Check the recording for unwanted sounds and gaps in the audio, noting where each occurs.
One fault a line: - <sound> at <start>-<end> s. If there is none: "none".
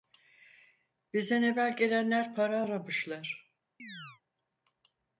- chirp at 3.8-4.2 s